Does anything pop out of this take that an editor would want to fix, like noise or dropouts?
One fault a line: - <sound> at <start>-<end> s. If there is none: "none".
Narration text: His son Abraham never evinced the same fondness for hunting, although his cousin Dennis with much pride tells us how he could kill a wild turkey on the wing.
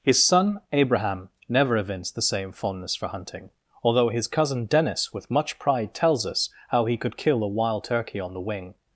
none